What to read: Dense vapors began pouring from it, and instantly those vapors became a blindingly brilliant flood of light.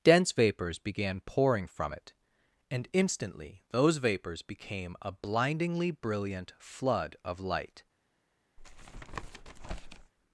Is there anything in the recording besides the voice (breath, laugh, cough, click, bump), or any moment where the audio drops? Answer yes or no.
yes